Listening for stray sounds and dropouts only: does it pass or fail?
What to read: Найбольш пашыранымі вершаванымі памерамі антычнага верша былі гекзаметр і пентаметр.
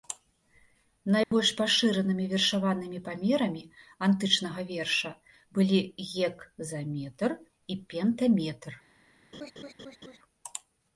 fail